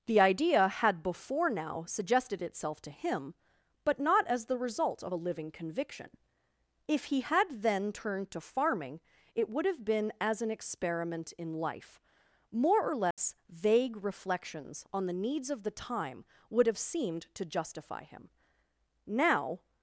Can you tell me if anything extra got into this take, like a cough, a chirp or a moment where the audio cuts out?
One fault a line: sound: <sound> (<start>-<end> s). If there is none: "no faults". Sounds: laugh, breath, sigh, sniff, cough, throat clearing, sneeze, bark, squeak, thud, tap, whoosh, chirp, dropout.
sound: dropout (13.1-13.2 s)